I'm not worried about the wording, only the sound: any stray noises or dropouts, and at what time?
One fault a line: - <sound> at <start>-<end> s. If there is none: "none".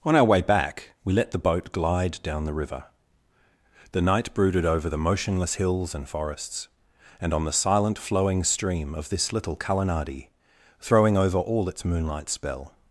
none